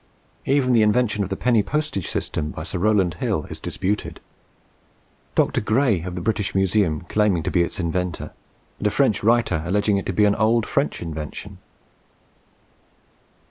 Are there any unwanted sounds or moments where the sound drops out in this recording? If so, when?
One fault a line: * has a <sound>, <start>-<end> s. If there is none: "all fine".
all fine